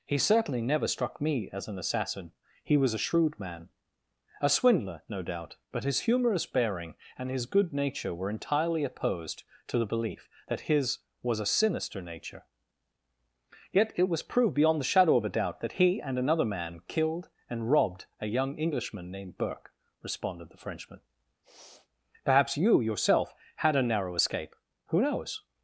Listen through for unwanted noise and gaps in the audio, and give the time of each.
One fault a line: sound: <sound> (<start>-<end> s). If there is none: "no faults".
sound: sniff (21.4-21.9 s)